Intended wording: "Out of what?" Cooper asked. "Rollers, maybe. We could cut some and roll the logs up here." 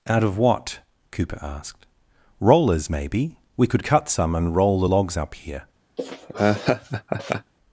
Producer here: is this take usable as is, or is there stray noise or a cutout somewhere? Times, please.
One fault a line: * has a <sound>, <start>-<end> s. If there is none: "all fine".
* has a laugh, 6.0-7.5 s